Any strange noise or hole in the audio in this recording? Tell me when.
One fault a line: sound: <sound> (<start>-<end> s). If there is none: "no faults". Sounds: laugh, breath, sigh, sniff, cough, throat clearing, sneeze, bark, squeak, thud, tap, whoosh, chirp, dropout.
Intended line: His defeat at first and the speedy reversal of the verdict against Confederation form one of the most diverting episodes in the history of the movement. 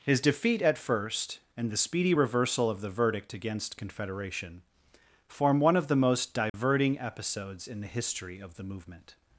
sound: dropout (6.5-6.5 s)